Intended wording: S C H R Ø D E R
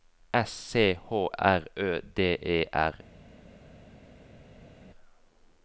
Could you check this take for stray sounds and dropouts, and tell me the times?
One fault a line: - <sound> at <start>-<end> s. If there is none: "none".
none